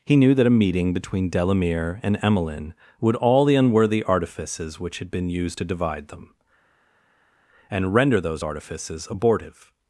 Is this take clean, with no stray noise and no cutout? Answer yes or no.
yes